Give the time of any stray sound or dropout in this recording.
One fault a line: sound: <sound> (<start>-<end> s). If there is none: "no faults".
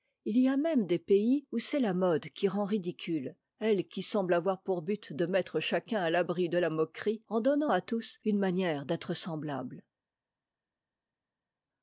no faults